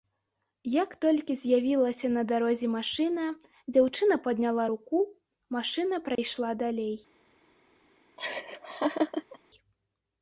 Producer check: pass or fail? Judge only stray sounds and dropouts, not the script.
fail